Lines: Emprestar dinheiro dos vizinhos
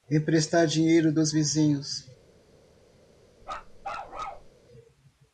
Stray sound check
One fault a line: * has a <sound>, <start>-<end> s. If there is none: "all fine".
* has a bark, 3.4-4.5 s